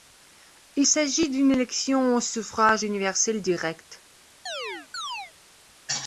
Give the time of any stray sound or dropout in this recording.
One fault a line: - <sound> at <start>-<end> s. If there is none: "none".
- chirp at 4.5-5.3 s